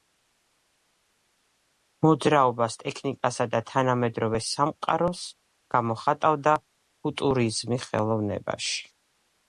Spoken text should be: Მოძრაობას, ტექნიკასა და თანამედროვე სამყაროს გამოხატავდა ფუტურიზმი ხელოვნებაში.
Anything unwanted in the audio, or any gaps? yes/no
no